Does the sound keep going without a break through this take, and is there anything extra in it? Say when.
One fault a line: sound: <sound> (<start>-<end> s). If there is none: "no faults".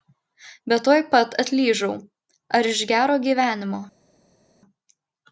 no faults